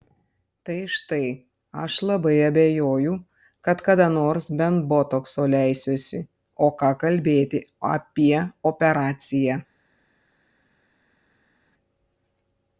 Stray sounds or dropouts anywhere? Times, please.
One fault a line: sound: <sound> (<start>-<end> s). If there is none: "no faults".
no faults